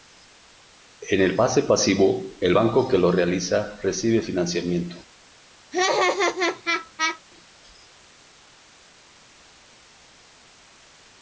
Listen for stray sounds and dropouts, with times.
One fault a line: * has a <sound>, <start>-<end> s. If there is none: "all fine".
* has a laugh, 5.7-7.2 s